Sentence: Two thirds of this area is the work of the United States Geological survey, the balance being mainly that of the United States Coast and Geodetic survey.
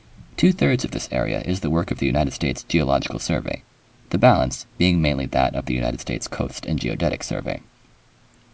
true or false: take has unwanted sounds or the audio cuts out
false